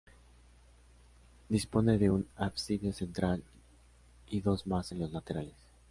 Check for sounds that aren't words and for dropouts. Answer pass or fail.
pass